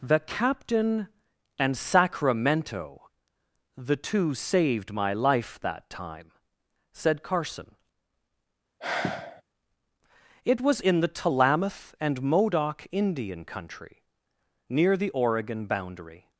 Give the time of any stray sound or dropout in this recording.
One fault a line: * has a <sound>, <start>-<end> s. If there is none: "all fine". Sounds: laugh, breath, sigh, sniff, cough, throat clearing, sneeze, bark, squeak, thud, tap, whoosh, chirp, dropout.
* has a sigh, 8.8-9.4 s